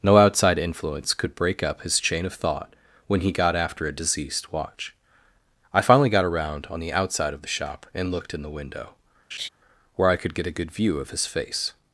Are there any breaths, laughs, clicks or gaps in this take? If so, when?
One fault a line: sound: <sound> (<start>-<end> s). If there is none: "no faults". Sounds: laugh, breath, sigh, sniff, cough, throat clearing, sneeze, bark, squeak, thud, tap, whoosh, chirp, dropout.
sound: laugh (9.3-9.5 s)